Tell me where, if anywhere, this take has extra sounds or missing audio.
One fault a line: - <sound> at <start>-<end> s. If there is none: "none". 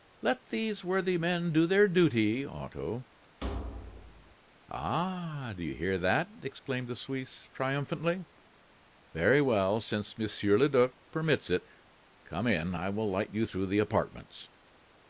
- thud at 3.4-4.4 s